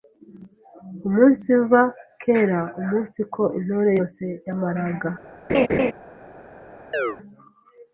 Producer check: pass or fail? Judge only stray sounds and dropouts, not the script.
fail